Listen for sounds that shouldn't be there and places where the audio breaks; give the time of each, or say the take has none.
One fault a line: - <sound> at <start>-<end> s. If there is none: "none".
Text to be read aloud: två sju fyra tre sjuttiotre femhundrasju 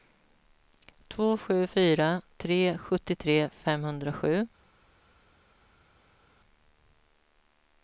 none